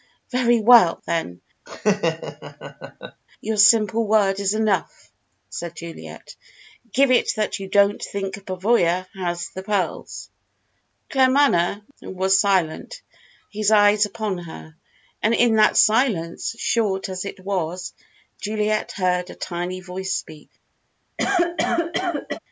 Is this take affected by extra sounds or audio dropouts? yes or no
yes